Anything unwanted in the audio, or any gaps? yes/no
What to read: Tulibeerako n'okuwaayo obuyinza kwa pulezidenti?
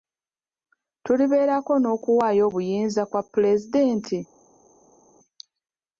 no